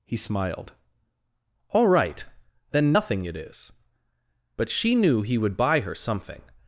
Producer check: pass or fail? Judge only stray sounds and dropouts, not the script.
pass